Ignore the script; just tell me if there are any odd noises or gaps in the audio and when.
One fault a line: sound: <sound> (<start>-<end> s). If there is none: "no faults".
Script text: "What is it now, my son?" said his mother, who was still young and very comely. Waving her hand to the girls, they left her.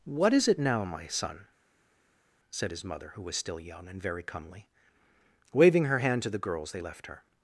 no faults